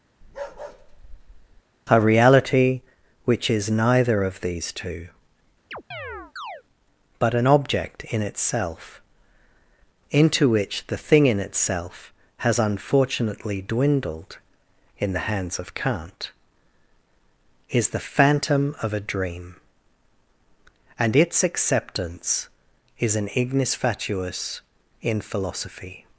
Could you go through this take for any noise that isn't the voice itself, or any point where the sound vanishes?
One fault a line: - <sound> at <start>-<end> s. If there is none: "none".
- bark at 0.2-1.6 s
- chirp at 5.7-6.6 s